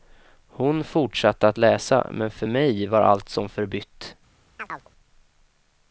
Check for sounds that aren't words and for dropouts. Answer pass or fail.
fail